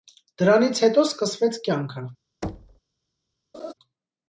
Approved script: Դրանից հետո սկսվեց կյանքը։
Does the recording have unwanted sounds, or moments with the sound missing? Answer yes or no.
yes